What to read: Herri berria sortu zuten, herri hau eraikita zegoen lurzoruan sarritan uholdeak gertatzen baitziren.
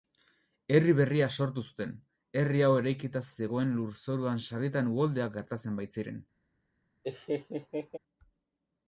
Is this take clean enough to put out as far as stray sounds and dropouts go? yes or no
no